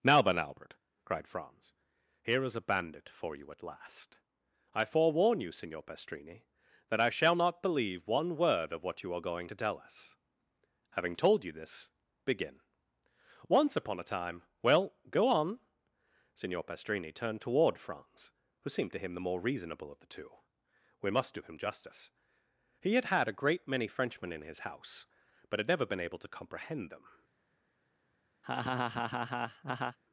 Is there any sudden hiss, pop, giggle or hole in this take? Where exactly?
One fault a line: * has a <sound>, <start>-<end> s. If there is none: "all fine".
* has a laugh, 28.4-30.0 s